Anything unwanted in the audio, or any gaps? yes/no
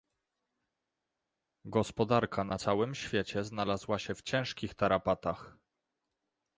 no